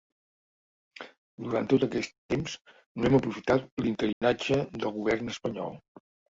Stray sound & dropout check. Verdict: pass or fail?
fail